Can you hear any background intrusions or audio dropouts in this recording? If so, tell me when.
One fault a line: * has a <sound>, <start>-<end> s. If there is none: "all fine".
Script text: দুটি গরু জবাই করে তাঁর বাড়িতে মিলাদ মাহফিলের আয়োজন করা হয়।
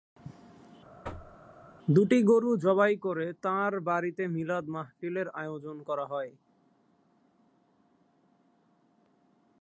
* has a thud, 1.0-1.4 s